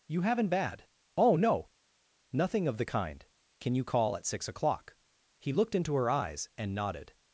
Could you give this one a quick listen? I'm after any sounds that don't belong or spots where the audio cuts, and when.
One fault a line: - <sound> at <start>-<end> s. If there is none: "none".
none